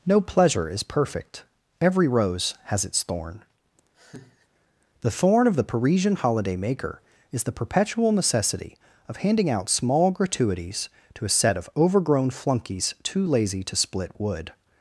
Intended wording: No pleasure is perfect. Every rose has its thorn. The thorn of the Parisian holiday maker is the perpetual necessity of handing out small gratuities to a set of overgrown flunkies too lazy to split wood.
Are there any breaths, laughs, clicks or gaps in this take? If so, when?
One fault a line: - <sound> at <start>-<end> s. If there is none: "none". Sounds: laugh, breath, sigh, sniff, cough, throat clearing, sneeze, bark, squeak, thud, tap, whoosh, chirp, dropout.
- laugh at 3.9-4.5 s